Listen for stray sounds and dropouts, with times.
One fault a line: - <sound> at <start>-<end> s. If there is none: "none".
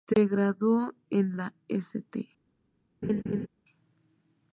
- laugh at 3.0-3.5 s